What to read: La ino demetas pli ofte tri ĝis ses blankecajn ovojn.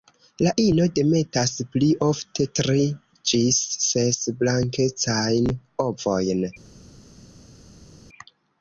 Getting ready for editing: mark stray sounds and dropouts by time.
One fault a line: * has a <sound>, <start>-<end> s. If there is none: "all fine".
all fine